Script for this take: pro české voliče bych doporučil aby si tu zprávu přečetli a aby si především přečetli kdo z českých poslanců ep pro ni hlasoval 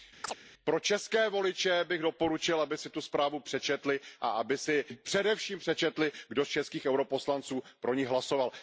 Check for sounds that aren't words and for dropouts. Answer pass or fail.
fail